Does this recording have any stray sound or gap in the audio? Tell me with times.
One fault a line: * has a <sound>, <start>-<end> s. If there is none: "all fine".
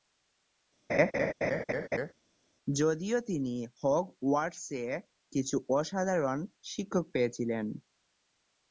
* has a laugh, 0.9-2.1 s